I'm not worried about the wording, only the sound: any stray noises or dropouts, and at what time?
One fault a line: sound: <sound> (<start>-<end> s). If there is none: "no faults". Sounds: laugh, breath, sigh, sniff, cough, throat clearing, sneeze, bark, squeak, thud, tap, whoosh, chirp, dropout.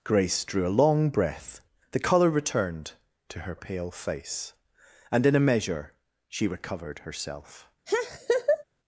sound: laugh (7.9-8.6 s)